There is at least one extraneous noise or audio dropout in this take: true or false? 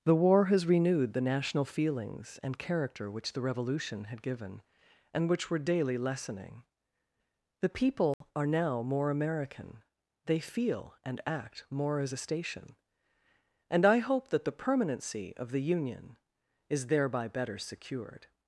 true